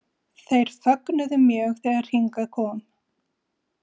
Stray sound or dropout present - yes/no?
no